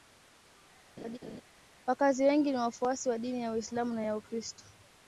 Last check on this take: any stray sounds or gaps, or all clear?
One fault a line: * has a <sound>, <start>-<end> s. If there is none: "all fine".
* has a laugh, 1.0-1.4 s